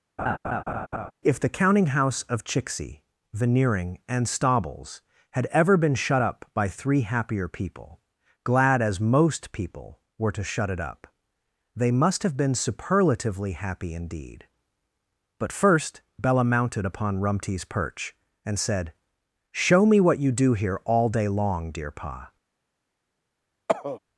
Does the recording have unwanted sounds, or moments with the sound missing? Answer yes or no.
yes